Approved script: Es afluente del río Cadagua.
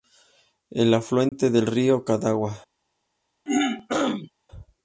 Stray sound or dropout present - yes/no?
yes